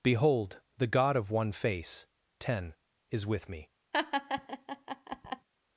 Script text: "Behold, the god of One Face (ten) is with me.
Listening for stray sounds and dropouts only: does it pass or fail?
fail